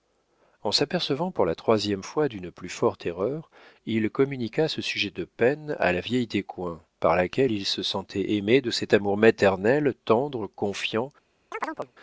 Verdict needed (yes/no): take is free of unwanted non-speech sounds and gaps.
no